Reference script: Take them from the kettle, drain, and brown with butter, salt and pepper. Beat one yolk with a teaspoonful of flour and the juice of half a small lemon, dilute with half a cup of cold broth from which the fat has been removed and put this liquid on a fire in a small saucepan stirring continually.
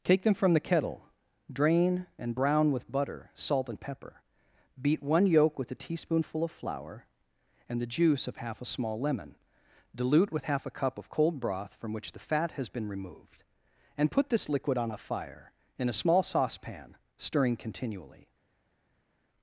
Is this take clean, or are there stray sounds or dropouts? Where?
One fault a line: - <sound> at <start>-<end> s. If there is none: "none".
none